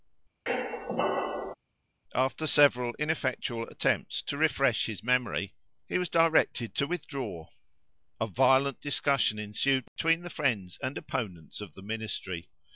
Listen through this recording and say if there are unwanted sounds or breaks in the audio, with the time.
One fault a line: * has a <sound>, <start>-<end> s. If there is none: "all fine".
* has a squeak, 0.5-1.5 s
* has a dropout, 9.9-10.0 s